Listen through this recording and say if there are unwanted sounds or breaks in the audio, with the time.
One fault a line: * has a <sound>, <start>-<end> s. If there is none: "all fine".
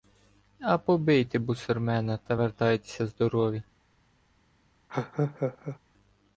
* has a laugh, 4.9-5.8 s